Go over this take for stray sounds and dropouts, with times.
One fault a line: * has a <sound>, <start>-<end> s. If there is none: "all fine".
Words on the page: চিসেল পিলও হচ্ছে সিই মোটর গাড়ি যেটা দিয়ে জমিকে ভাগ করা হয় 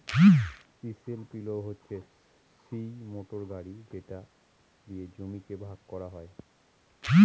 all fine